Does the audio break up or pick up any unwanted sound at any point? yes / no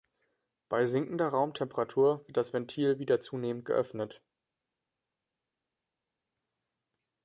no